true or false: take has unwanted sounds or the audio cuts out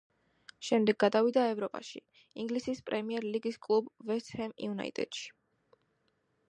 false